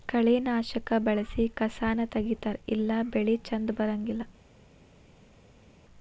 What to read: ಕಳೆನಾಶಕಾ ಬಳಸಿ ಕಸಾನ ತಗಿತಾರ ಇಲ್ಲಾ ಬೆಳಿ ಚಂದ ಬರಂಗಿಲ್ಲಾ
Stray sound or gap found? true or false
false